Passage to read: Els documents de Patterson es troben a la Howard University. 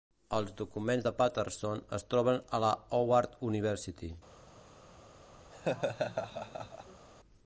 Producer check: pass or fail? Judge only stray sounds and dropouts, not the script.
fail